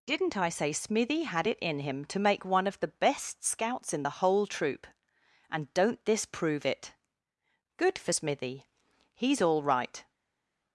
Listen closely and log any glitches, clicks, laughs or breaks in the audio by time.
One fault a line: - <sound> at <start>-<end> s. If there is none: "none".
none